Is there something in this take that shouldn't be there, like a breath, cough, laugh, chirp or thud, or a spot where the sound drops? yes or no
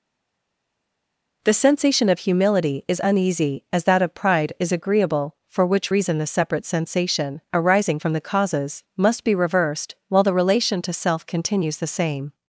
no